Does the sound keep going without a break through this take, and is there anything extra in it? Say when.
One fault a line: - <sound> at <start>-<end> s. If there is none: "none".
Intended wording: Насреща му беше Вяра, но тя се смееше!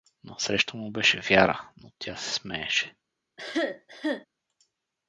- cough at 3.4-4.3 s